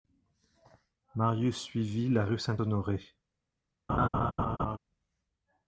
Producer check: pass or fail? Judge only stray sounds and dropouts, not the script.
fail